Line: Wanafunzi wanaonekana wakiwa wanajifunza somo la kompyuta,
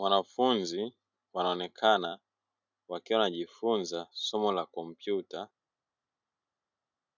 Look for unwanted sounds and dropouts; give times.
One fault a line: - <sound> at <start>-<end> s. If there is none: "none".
none